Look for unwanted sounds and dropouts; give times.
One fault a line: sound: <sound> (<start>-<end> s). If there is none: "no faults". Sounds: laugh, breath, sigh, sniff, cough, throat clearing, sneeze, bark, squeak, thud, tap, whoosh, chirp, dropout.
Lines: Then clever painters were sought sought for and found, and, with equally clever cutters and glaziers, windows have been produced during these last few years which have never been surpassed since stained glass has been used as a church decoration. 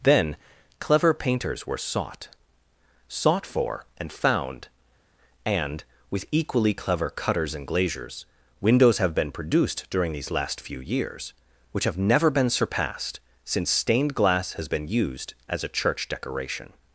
no faults